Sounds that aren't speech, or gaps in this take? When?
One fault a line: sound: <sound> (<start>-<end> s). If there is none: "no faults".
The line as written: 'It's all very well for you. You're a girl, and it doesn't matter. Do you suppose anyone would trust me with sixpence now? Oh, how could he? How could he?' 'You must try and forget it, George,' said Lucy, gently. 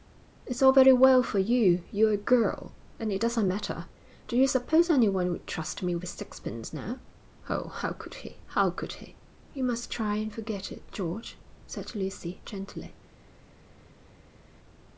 no faults